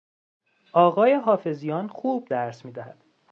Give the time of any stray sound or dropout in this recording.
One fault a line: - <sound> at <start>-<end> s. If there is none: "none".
none